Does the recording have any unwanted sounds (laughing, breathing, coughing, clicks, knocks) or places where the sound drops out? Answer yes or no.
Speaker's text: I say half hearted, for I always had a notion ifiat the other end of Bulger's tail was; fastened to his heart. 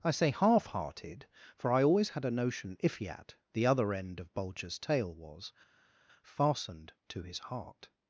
no